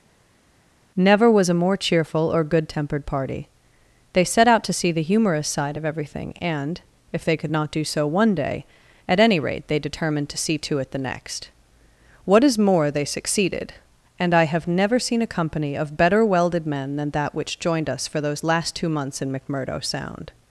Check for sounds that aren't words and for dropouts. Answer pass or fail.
pass